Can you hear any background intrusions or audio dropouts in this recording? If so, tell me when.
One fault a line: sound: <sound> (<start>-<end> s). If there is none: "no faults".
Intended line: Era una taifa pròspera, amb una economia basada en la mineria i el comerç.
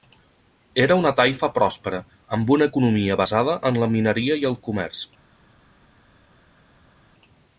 no faults